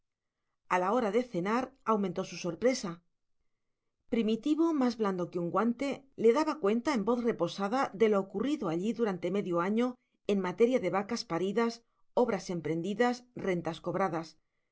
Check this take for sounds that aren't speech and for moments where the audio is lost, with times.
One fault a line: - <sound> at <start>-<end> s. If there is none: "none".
none